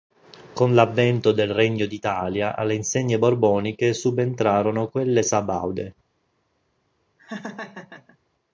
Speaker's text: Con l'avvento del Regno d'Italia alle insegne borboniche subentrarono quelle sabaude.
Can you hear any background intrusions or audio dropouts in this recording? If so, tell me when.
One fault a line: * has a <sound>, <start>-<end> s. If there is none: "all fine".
* has a laugh, 7.2-8.2 s